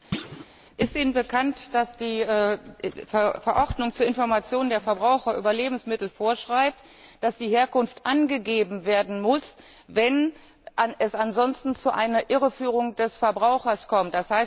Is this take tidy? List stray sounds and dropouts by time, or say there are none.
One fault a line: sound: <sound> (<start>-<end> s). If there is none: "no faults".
sound: thud (0.1-0.5 s)